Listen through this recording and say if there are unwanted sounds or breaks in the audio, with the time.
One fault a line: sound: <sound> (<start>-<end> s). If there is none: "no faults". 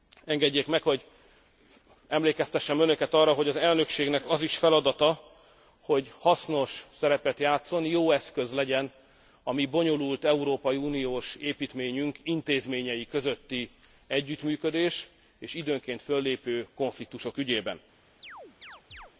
sound: chirp (18.2-19.1 s)